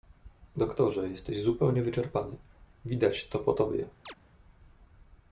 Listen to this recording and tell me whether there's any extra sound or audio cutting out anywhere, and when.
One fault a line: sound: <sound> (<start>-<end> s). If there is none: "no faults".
sound: chirp (4.1-4.1 s)